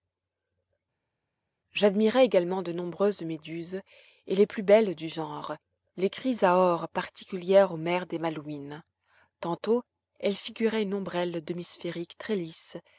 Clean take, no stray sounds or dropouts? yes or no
yes